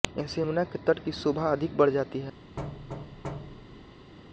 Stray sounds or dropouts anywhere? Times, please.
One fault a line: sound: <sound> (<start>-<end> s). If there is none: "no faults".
sound: thud (2.6-4.1 s)